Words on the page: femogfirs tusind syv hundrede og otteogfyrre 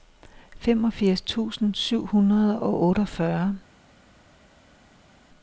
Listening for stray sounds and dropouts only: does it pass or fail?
pass